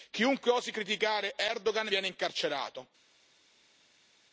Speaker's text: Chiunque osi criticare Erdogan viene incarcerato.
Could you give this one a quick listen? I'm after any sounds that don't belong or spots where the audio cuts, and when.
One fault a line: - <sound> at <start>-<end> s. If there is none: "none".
none